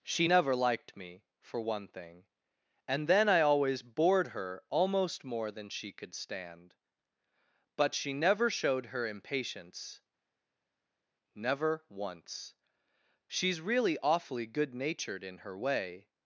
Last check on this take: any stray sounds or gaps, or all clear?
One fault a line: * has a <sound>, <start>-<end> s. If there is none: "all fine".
all fine